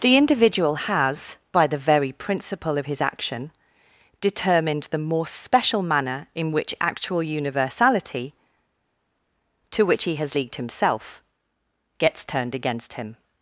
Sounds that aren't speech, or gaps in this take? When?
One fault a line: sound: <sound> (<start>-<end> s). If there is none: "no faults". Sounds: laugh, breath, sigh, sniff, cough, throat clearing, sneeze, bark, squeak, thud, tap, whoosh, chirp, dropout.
no faults